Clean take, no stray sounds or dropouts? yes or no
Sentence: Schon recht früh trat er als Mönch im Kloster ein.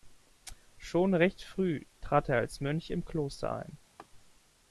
no